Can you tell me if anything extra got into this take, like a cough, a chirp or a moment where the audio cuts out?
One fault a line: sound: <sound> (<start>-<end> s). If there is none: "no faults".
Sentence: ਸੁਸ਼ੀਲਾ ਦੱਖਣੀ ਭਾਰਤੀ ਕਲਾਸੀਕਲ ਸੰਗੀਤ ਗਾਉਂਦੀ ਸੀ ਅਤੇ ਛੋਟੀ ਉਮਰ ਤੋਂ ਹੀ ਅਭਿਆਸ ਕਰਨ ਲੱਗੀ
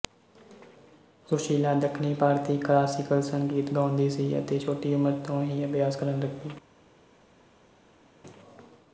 no faults